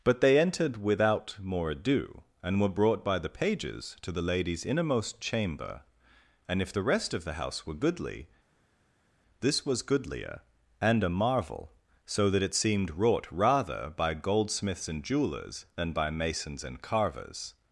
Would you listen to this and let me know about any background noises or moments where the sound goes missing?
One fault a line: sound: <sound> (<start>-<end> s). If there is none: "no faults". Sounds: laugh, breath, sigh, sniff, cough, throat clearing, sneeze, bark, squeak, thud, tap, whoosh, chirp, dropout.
no faults